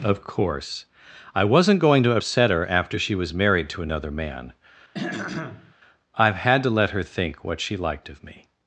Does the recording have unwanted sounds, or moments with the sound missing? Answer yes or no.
yes